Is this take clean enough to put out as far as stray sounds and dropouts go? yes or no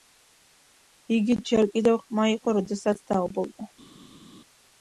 yes